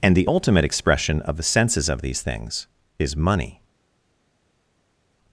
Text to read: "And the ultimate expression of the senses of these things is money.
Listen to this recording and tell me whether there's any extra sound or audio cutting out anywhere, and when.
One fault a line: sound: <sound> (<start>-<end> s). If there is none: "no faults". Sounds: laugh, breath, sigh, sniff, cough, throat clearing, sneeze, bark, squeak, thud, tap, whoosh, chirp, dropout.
no faults